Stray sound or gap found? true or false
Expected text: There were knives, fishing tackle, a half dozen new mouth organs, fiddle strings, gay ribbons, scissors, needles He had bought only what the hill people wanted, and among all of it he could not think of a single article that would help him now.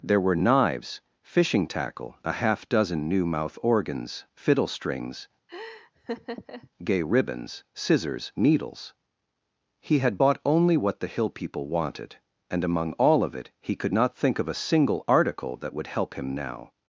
true